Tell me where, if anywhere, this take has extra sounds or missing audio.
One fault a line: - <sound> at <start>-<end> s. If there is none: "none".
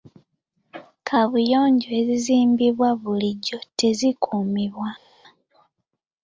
none